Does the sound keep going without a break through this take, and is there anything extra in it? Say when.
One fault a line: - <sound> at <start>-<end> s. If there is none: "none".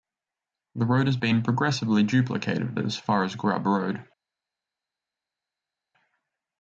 none